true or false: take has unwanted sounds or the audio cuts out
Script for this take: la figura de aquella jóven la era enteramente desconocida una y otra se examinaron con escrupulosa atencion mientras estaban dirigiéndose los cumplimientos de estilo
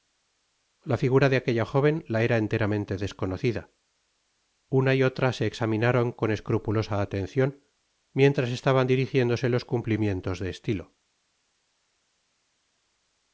false